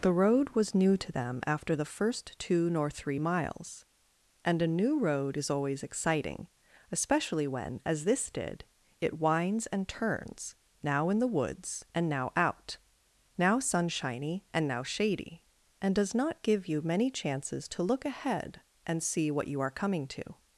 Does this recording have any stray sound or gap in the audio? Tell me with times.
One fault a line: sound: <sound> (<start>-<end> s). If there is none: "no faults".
no faults